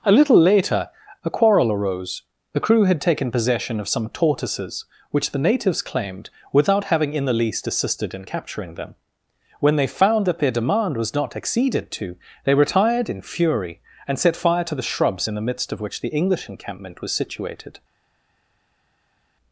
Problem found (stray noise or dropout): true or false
false